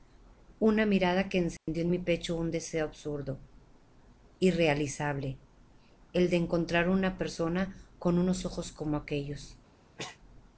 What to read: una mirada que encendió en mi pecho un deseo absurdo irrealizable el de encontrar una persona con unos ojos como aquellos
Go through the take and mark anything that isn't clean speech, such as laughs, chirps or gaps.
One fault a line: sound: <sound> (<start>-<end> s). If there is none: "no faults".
sound: dropout (1.6-1.7 s)
sound: sneeze (10.0-10.2 s)